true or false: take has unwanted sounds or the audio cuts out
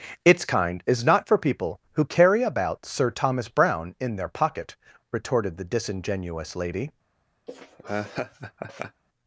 true